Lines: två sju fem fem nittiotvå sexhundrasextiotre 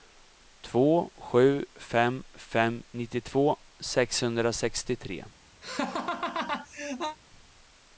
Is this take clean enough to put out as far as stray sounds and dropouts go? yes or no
no